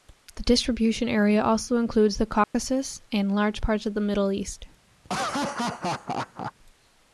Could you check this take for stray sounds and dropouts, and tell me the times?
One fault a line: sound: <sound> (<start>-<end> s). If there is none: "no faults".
sound: dropout (2.4-2.5 s)
sound: laugh (5.0-6.5 s)